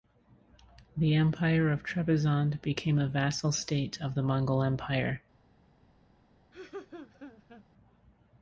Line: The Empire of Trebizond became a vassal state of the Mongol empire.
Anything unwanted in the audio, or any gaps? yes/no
yes